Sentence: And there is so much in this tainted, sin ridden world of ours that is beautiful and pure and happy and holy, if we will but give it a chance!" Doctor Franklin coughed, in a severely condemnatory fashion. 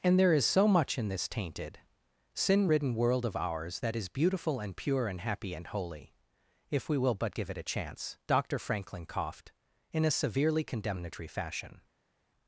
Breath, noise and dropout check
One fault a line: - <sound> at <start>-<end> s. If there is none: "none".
none